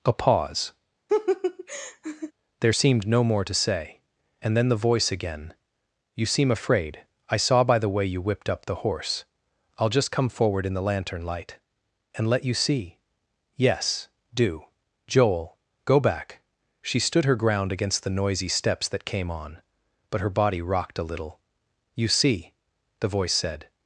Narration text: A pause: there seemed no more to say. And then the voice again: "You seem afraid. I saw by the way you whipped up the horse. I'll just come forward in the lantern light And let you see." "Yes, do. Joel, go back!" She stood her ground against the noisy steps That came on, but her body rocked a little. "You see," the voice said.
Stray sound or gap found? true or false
true